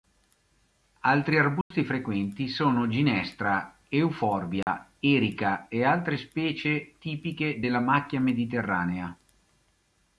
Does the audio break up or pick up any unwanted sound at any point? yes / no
yes